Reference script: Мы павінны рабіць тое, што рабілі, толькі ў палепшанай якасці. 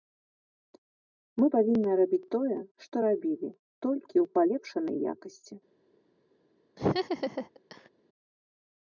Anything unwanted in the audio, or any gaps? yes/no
yes